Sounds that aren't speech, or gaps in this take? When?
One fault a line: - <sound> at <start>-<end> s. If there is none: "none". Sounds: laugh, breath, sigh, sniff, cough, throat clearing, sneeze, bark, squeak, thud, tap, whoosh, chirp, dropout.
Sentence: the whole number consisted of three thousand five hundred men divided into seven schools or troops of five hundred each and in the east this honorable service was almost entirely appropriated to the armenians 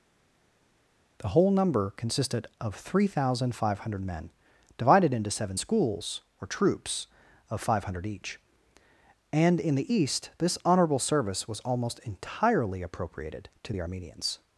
none